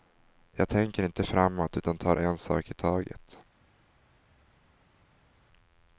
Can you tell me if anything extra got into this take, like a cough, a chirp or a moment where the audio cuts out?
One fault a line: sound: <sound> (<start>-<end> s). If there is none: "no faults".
no faults